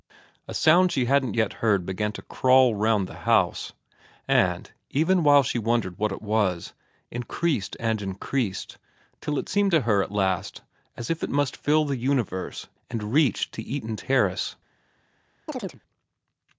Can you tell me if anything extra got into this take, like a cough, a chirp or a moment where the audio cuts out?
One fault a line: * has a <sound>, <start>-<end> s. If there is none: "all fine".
* has a chirp, 15.5-15.8 s